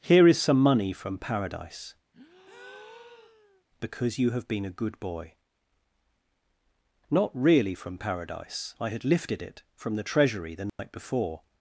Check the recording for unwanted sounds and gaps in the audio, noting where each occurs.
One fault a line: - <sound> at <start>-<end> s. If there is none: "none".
- breath at 2.1-3.6 s
- dropout at 10.7-10.8 s